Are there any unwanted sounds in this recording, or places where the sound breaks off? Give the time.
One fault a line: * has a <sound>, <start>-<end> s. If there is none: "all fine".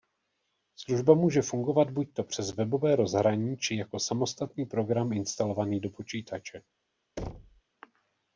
* has a thud, 7.2-7.6 s